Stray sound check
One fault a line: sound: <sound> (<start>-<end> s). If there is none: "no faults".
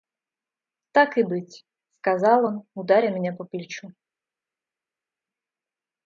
no faults